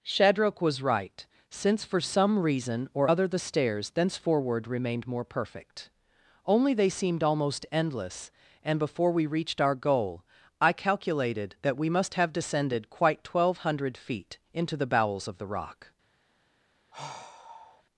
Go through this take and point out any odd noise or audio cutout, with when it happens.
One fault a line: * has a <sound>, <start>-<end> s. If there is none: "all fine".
* has a sigh, 16.9-17.8 s